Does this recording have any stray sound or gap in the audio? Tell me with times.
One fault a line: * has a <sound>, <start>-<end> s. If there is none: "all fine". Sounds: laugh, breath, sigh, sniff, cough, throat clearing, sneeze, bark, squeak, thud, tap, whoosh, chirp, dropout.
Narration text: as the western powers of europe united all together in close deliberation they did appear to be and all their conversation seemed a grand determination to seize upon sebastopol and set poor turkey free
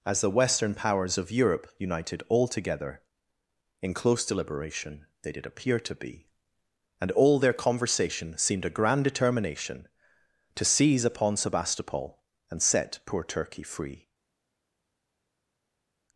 all fine